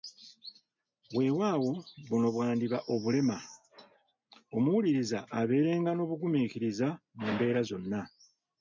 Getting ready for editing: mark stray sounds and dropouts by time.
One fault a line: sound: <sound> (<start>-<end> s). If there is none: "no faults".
no faults